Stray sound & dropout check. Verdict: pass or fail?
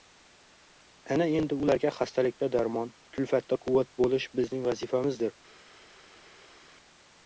pass